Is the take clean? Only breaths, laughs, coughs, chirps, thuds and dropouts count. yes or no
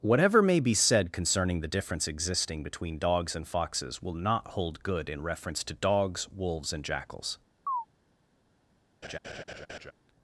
no